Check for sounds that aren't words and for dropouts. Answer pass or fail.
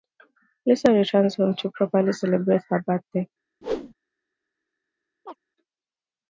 fail